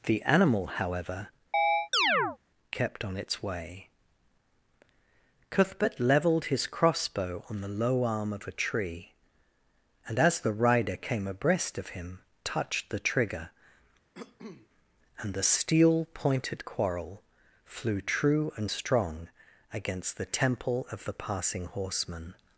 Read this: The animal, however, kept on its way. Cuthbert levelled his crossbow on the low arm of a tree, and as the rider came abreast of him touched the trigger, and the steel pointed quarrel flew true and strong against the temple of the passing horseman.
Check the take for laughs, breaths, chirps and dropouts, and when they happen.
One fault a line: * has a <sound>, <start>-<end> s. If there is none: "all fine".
* has a chirp, 1.5-2.4 s
* has a cough, 14.1-14.7 s